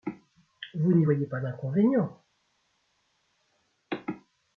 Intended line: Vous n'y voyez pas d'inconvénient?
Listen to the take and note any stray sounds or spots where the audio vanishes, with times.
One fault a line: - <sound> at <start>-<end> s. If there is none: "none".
none